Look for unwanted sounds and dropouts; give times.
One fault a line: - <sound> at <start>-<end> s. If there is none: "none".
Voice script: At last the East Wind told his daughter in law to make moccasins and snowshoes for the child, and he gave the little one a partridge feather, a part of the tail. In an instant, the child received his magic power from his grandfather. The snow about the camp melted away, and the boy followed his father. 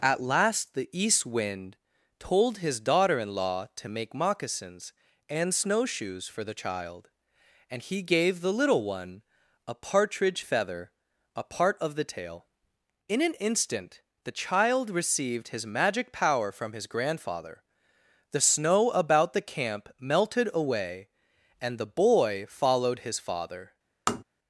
- tap at 24.1-24.2 s